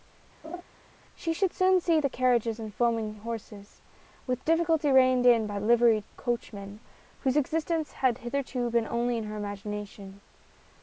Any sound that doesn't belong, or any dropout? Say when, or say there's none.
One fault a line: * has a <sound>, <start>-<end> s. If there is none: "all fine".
* has a laugh, 0.4-0.6 s